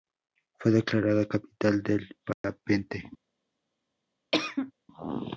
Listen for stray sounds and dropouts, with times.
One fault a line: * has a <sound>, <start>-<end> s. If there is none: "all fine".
* has a dropout, 2.3-2.4 s
* has a cough, 4.3-4.7 s